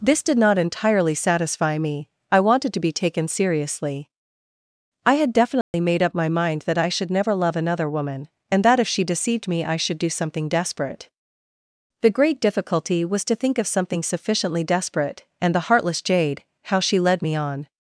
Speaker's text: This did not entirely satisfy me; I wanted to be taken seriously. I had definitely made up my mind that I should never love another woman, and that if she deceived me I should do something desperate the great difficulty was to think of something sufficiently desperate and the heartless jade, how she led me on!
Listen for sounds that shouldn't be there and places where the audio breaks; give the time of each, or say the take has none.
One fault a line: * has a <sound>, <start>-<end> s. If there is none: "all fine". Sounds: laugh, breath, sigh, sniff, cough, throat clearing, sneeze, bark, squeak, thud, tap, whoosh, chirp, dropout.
* has a dropout, 5.6-5.7 s